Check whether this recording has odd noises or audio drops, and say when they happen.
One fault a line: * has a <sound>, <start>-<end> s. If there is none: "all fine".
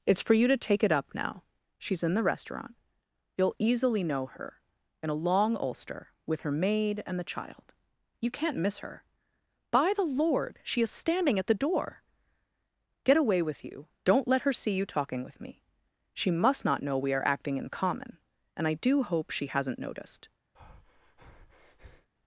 * has a breath, 20.5-22.1 s